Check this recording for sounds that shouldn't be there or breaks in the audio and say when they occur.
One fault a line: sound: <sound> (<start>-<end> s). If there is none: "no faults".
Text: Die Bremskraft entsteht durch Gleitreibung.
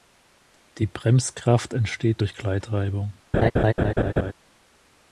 sound: laugh (3.3-4.3 s)